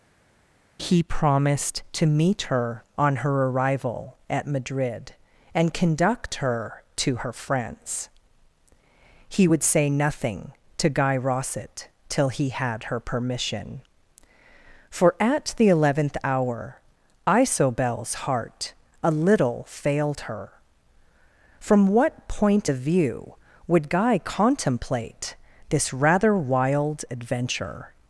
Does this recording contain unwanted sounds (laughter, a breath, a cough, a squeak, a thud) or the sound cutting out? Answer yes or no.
no